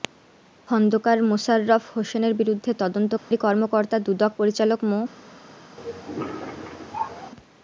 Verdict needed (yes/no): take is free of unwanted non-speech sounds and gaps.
no